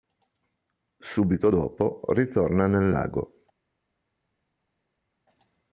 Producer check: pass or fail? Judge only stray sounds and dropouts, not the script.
pass